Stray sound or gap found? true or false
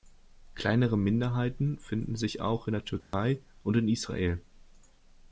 true